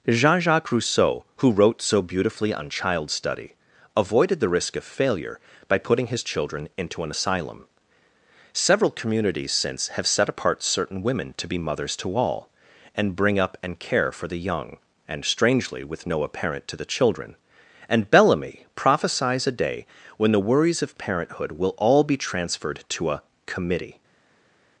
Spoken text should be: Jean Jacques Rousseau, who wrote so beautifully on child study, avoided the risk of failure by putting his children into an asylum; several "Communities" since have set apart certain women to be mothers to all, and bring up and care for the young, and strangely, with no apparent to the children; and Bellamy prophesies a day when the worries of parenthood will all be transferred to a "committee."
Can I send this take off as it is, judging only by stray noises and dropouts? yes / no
yes